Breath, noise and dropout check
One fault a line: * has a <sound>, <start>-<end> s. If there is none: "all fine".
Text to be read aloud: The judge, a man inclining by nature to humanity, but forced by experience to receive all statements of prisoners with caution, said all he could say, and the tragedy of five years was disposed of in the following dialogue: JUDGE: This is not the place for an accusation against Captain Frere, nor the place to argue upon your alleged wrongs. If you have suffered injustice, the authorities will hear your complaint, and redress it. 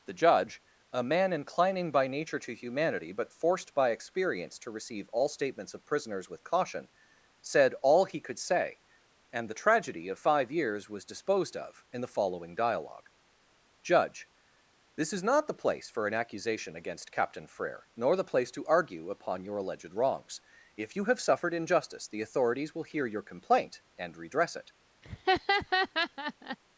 * has a laugh, 25.0-26.6 s